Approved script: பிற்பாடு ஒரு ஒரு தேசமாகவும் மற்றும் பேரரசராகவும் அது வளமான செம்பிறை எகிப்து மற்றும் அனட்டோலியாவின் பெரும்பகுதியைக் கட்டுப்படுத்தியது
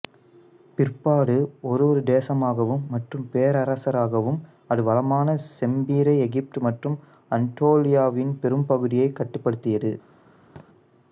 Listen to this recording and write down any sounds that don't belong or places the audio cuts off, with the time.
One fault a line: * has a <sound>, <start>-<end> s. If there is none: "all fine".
* has a thud, 10.6-10.7 s